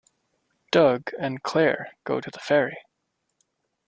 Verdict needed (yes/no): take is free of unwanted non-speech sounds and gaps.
yes